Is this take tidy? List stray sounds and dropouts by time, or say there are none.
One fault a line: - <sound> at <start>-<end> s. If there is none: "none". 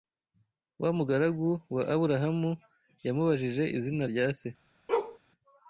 - bark at 4.9-5.2 s